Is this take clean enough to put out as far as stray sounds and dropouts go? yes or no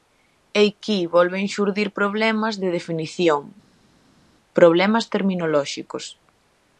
yes